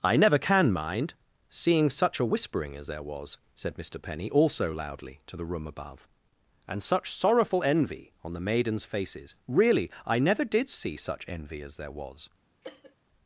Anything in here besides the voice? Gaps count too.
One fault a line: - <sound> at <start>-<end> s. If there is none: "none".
- cough at 12.6-13.0 s